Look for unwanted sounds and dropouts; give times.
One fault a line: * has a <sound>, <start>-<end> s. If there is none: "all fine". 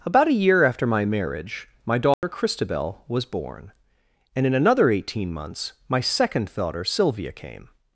* has a dropout, 2.1-2.2 s